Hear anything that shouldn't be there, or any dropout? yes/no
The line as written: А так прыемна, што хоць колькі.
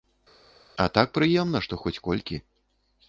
no